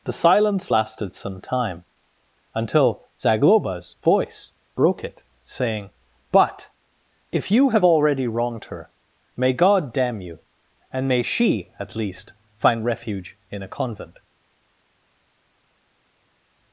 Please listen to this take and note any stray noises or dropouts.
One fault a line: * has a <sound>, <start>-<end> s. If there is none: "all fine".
all fine